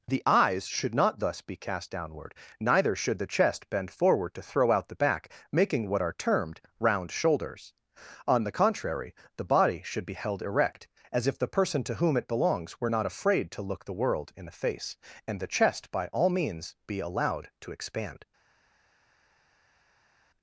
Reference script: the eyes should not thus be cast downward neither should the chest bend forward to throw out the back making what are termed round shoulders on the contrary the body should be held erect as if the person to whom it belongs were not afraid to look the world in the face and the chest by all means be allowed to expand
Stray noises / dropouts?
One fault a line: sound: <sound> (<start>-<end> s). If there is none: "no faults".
no faults